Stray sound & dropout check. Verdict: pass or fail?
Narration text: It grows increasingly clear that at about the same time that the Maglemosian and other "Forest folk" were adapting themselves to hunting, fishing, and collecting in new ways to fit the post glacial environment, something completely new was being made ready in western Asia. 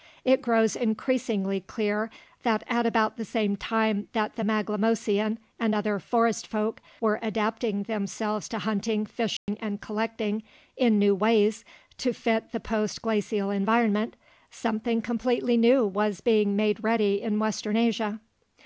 fail